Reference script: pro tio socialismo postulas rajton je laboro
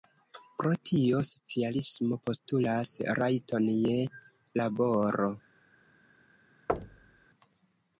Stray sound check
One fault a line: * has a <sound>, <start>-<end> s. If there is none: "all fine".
* has a thud, 6.7-7.3 s